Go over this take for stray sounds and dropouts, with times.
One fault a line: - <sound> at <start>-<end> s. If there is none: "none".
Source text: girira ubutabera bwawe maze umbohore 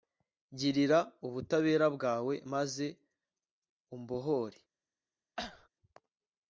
- cough at 5.4-5.7 s